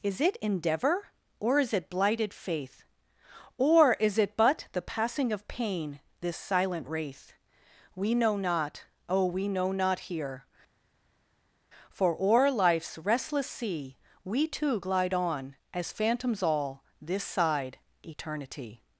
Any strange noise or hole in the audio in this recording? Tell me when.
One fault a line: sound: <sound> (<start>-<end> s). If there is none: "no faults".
no faults